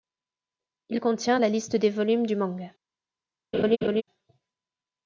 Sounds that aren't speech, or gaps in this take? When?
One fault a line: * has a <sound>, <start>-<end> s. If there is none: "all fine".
* has a laugh, 3.5-4.0 s